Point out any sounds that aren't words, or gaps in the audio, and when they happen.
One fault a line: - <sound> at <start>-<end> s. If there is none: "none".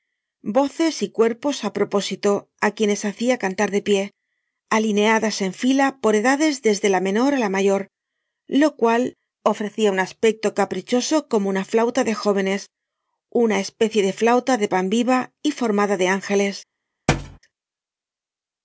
- thud at 17.1-17.4 s